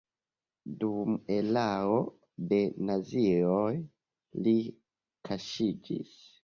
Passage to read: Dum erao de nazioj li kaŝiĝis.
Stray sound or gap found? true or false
false